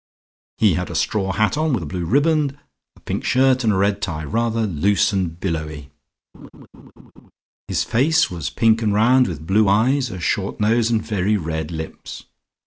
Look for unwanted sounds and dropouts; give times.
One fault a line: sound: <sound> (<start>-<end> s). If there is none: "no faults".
sound: laugh (6.3-7.3 s)